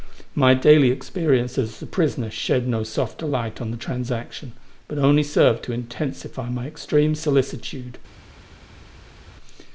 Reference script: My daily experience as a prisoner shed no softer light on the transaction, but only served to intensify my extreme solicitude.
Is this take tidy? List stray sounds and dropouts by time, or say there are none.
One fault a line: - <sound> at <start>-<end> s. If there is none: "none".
none